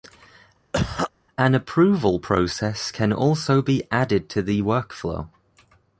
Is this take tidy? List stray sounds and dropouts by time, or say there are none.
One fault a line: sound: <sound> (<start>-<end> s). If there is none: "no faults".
sound: cough (0.7-1.1 s)